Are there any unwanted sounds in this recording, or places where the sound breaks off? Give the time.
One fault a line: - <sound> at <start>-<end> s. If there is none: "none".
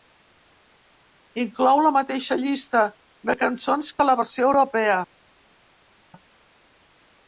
none